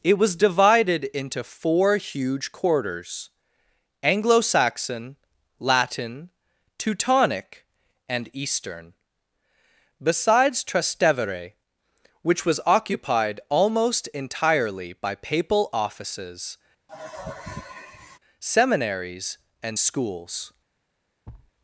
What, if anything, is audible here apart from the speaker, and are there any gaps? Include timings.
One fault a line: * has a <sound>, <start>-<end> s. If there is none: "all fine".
* has a sigh, 16.9-18.2 s
* has a thud, 21.3-21.5 s